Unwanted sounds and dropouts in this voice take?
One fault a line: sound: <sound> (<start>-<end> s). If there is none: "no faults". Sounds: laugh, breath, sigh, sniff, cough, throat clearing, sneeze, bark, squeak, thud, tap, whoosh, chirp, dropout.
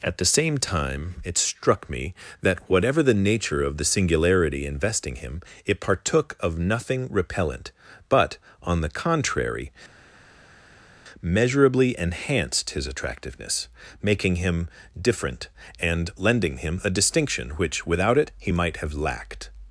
no faults